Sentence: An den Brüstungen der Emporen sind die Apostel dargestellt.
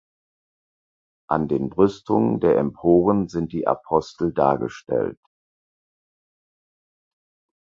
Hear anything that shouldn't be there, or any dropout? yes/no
no